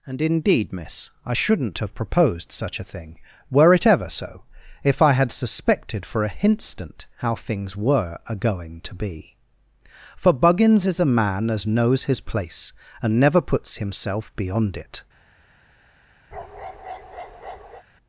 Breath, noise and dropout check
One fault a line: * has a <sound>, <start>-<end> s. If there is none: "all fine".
* has a bark, 16.3-17.8 s